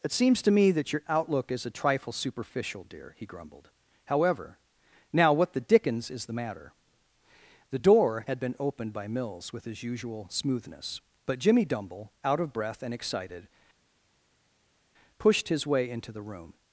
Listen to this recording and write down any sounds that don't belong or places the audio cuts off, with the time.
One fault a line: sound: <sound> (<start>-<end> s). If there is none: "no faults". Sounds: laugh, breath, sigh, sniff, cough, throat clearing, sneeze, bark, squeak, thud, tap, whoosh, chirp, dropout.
no faults